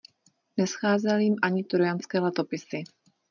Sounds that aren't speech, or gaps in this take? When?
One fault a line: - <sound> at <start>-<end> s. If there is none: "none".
none